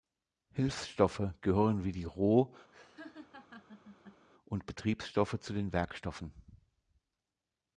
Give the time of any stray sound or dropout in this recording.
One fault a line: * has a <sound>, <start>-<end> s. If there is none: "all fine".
* has a laugh, 2.7-4.3 s